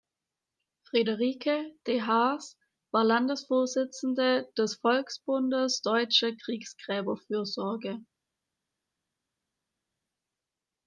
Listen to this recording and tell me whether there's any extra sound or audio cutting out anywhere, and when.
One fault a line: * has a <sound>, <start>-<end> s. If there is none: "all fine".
all fine